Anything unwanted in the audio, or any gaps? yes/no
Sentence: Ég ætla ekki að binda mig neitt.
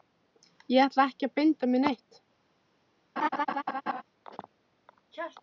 yes